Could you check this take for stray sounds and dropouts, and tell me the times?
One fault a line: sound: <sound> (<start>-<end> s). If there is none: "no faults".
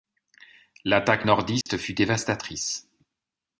sound: dropout (1.6-1.7 s)